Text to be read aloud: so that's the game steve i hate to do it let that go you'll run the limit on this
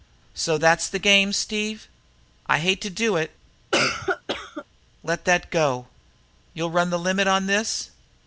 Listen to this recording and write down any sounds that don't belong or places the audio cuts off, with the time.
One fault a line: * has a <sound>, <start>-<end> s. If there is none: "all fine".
* has a cough, 3.7-4.6 s